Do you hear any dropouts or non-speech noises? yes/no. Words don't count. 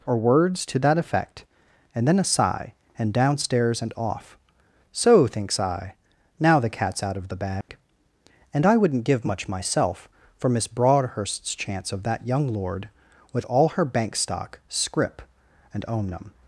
yes